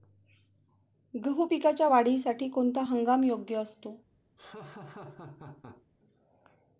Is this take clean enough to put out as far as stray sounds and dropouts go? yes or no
no